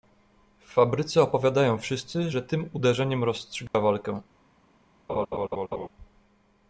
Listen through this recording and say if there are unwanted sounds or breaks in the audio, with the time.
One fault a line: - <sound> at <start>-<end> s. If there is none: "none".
- dropout at 3.7-3.7 s
- laugh at 5.1-5.9 s